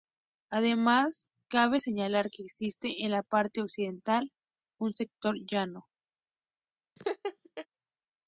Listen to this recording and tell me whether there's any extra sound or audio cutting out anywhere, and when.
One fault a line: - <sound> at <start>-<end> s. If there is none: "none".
- laugh at 7.0-7.7 s